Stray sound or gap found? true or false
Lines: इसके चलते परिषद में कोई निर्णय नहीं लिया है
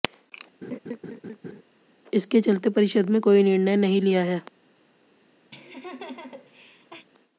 true